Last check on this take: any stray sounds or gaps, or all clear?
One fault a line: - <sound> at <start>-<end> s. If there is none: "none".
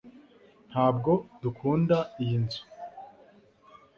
none